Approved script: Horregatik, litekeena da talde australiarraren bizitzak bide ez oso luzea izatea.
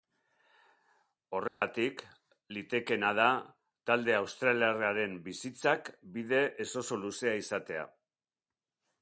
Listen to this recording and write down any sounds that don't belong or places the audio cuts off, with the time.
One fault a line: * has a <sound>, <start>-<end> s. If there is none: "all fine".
* has a dropout, 1.5-1.6 s